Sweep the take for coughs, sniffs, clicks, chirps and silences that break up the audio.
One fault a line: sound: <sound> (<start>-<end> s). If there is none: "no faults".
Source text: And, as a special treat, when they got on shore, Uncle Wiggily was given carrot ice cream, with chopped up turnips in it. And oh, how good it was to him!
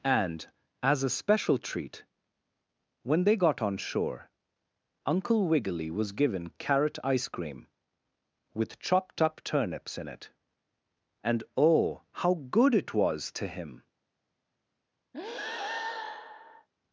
sound: breath (15.1-16.7 s)